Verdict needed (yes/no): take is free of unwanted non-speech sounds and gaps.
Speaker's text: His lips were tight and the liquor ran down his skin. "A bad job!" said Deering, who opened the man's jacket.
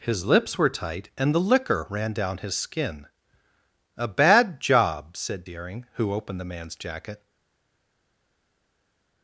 yes